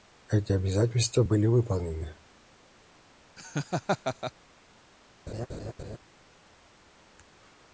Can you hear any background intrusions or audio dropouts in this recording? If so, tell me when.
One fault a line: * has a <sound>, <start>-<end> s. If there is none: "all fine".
* has a laugh, 3.4-4.3 s
* has a laugh, 5.3-6.0 s